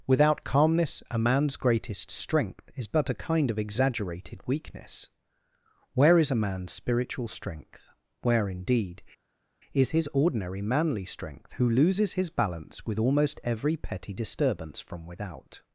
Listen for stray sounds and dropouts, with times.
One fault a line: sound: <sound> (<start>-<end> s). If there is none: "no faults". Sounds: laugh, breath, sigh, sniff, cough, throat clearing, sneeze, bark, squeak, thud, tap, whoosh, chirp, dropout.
no faults